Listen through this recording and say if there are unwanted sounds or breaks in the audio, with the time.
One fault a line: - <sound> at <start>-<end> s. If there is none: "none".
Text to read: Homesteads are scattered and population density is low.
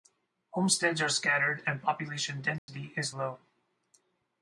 - dropout at 2.6-2.7 s